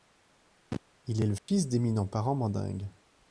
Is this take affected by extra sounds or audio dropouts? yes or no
yes